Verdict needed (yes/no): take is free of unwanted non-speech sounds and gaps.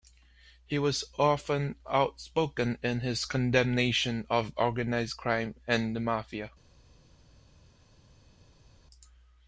yes